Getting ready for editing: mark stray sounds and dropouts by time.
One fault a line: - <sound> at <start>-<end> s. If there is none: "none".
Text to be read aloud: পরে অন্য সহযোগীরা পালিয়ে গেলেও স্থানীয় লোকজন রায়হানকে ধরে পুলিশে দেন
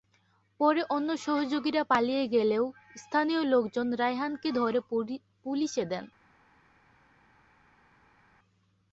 none